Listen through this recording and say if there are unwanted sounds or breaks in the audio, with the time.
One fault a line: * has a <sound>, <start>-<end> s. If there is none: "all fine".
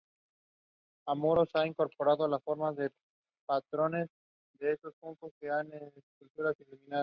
all fine